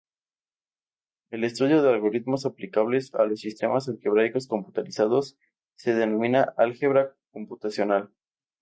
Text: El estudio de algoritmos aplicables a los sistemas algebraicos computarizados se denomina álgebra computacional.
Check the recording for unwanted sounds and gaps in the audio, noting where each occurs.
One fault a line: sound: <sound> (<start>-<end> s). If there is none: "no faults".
no faults